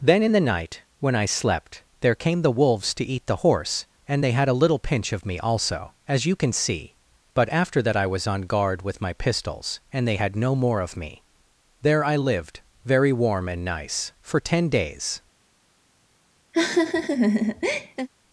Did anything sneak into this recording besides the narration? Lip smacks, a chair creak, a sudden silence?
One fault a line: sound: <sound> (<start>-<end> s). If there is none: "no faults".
sound: laugh (16.5-18.1 s)